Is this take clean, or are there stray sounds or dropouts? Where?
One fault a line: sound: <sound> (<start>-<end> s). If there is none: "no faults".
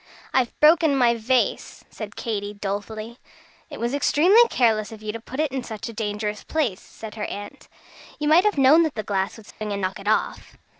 sound: dropout (9.5-9.6 s)